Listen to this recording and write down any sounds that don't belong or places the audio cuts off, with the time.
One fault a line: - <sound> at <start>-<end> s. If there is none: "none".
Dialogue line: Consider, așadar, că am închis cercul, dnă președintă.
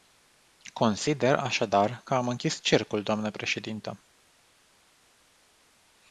none